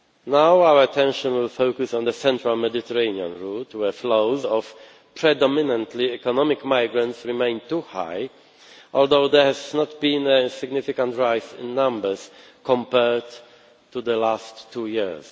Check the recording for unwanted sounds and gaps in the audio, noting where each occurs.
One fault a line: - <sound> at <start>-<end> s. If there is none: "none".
none